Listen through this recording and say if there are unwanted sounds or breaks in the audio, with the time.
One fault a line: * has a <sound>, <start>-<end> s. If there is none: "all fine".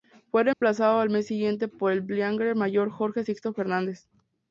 * has a dropout, 0.5-0.6 s